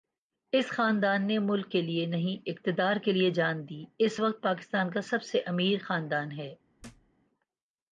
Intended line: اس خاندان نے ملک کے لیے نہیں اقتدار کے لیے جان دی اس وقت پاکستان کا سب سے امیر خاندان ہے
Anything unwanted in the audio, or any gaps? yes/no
yes